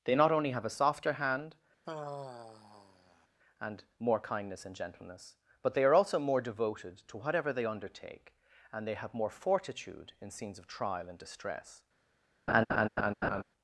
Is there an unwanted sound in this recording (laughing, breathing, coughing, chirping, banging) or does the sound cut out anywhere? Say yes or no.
yes